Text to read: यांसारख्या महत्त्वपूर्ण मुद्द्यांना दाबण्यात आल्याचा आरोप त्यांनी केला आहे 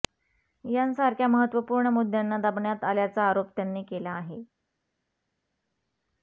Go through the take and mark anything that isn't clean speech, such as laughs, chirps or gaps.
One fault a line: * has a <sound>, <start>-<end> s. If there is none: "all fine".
all fine